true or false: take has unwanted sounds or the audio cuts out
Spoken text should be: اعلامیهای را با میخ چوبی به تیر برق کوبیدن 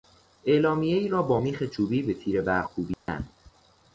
true